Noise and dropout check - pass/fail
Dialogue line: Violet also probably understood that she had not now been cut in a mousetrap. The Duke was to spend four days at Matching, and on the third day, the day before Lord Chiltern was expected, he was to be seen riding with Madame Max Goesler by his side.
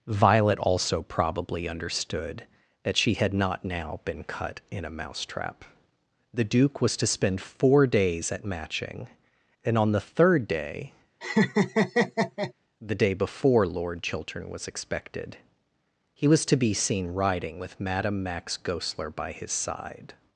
fail